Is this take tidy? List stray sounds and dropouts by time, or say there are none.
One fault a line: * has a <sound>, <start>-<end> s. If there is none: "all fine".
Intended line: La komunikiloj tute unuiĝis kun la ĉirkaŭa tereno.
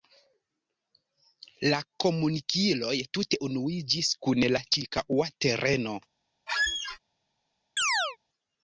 * has a squeak, 6.5-7.0 s
* has a chirp, 7.8-8.2 s